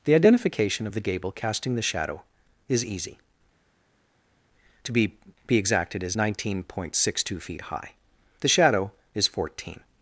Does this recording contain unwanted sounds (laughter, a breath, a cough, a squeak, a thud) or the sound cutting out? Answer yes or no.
no